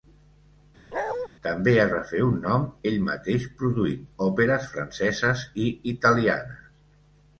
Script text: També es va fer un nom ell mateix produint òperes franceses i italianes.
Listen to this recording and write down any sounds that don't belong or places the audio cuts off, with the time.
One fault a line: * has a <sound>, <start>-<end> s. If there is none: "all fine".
* has a bark, 0.9-1.3 s